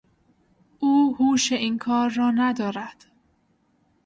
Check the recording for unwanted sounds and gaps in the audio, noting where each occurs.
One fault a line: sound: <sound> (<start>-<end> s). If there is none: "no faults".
no faults